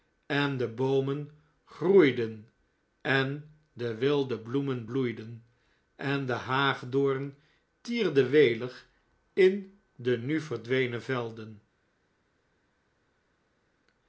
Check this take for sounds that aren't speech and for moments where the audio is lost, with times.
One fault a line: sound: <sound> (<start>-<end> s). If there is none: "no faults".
no faults